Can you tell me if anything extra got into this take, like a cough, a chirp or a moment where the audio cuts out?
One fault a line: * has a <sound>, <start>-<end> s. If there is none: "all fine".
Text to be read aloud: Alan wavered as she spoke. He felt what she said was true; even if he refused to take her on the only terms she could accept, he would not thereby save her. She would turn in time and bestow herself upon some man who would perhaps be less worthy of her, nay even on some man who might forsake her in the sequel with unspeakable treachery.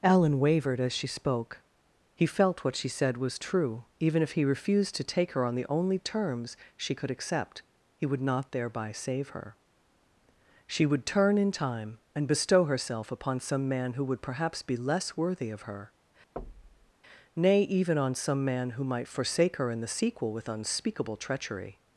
* has a thud, 16.4-16.9 s